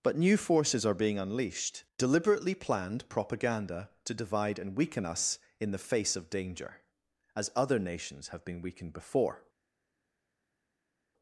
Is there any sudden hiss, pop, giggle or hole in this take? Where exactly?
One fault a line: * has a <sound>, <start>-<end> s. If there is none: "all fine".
all fine